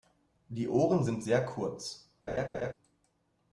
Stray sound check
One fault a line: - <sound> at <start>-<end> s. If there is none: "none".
- laugh at 2.3-2.7 s